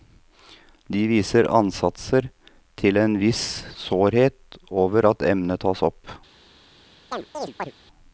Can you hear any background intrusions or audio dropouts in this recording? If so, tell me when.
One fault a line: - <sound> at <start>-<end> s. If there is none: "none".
- chirp at 7.1-7.7 s